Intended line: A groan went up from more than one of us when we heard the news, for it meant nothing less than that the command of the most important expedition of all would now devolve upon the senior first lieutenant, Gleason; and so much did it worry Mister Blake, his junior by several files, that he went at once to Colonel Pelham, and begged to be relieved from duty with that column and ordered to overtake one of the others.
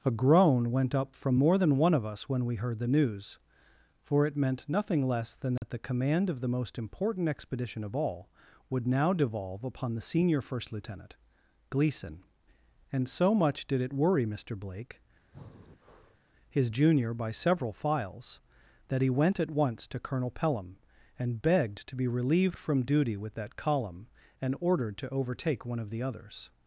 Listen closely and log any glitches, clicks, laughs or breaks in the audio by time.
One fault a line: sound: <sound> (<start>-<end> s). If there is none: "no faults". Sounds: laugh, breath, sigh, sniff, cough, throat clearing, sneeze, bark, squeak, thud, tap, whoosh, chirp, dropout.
sound: dropout (5.6-5.6 s)
sound: breath (15.3-16.2 s)